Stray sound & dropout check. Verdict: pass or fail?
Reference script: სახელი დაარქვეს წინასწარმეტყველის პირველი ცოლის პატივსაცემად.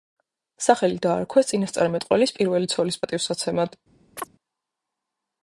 fail